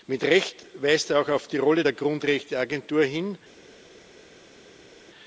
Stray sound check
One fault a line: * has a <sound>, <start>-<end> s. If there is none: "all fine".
all fine